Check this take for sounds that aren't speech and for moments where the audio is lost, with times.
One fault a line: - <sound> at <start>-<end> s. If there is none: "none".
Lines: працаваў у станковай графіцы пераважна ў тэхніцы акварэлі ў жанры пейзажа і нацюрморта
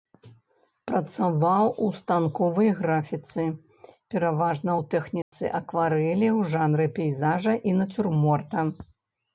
- dropout at 5.2-5.3 s